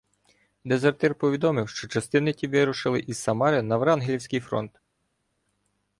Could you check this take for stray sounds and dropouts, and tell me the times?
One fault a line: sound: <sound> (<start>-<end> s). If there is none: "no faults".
no faults